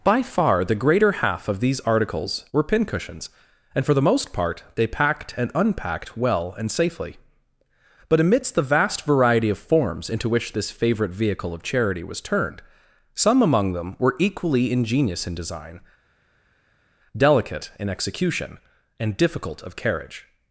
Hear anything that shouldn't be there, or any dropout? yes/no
no